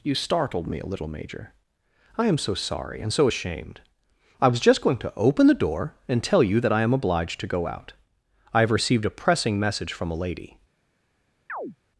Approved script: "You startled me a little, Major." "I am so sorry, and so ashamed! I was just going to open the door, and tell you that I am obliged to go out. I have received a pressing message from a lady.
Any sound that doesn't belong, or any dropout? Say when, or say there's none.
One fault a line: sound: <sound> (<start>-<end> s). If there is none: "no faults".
sound: chirp (11.5-11.8 s)